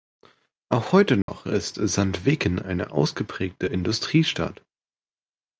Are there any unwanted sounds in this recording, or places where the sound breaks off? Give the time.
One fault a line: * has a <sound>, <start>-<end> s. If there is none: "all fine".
* has a dropout, 1.2-1.3 s